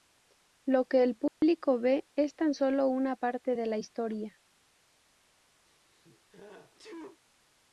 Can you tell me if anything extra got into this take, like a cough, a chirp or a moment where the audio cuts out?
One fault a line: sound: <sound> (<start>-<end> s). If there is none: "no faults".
sound: dropout (1.3-1.4 s)
sound: sneeze (5.6-7.2 s)